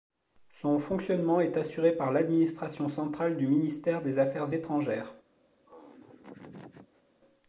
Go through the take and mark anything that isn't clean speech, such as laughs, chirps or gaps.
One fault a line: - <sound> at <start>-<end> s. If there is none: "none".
- laugh at 5.7-7.0 s